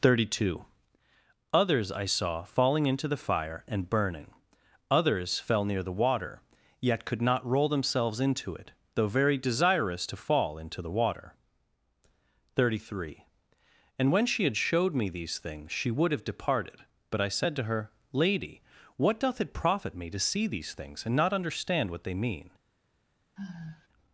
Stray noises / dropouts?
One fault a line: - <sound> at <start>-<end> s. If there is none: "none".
- sigh at 23.4-23.9 s